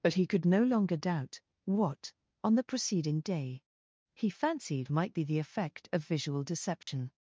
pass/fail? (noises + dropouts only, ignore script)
fail